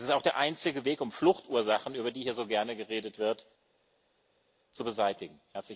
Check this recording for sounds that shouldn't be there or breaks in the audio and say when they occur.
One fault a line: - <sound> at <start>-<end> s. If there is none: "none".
none